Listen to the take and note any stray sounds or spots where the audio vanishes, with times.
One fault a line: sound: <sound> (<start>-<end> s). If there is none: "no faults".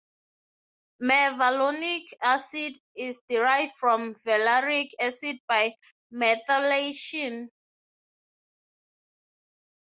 no faults